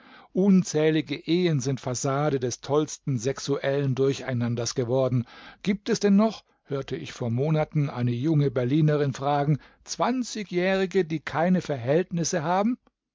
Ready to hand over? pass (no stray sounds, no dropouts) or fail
pass